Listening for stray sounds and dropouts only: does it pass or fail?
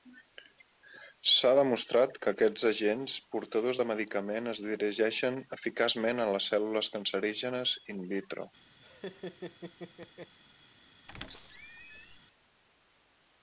fail